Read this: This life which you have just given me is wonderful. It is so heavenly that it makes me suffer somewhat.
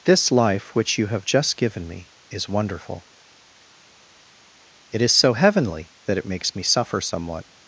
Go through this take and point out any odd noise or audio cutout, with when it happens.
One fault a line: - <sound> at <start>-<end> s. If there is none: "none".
none